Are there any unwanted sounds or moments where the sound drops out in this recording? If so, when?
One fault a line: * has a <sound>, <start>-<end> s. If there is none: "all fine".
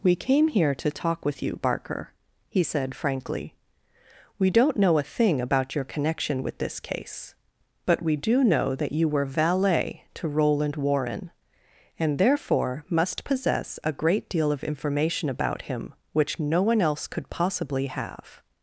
all fine